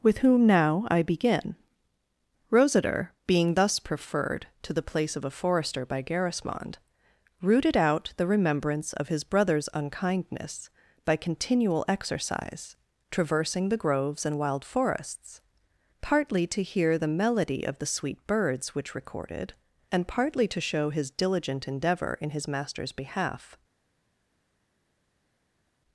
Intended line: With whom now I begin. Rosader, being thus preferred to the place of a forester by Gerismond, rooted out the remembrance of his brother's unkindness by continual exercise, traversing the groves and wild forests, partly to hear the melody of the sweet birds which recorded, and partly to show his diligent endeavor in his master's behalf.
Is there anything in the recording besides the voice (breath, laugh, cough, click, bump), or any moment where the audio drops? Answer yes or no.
no